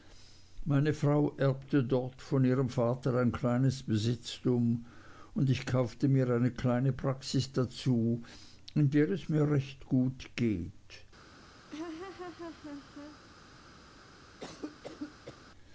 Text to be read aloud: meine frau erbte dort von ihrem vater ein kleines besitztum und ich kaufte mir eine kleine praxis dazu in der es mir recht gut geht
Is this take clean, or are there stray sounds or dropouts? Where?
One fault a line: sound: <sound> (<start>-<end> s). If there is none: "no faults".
sound: laugh (11.7-13.2 s)
sound: cough (14.4-15.4 s)